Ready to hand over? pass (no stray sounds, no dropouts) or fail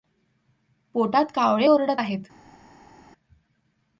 pass